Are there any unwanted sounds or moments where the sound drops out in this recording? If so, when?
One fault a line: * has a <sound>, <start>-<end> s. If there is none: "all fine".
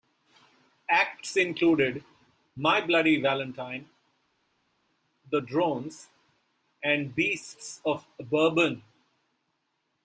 all fine